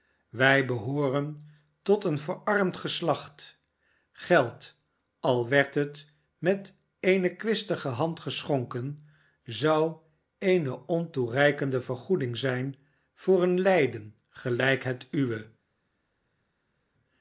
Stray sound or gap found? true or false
false